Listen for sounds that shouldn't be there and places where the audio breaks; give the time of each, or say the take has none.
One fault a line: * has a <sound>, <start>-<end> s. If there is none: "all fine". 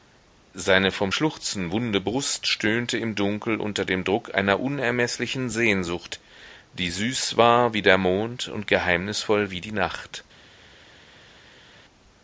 all fine